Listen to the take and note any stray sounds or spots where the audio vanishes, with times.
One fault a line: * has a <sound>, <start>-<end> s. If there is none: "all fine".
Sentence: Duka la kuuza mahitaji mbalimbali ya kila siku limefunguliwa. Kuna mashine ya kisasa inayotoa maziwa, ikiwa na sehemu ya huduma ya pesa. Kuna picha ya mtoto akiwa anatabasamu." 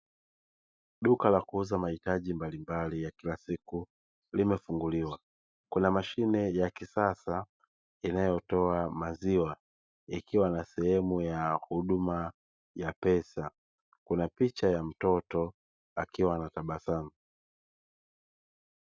all fine